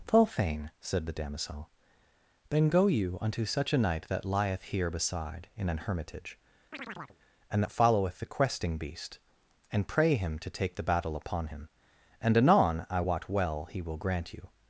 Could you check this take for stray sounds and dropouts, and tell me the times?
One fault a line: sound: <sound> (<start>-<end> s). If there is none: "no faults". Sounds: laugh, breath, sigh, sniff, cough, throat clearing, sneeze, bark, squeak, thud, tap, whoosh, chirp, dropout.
sound: chirp (6.7-7.2 s)